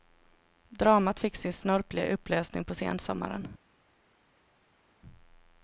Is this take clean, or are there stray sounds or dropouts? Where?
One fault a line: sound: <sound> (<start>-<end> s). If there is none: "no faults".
no faults